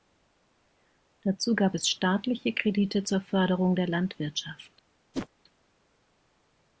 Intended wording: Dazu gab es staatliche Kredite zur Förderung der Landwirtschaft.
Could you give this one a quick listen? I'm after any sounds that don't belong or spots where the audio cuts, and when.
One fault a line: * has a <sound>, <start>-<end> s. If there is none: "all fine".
* has a whoosh, 5.1-5.3 s